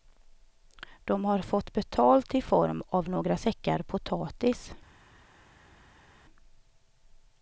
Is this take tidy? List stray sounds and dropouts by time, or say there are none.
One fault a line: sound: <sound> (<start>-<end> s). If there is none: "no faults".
no faults